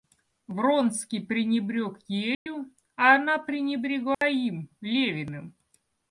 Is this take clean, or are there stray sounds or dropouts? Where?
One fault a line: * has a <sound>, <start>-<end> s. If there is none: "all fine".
* has a dropout, 2.3-2.5 s
* has a dropout, 4.1-4.2 s